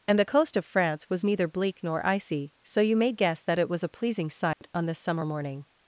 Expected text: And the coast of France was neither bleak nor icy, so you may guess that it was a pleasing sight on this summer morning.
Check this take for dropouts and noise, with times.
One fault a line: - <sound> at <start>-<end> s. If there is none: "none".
- dropout at 4.5-4.6 s